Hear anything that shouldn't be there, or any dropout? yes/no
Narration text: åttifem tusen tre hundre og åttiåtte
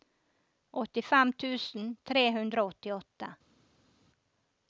no